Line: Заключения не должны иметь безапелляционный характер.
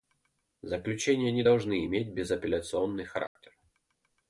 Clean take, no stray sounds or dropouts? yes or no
no